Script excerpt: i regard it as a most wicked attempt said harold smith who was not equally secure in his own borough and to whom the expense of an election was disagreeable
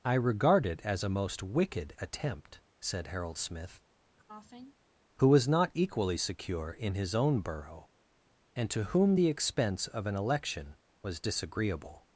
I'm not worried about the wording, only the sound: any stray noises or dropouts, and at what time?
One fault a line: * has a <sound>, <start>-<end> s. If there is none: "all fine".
* has a cough, 4.2-4.8 s